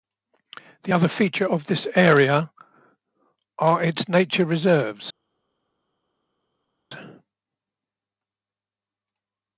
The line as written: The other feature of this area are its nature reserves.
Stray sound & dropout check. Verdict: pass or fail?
pass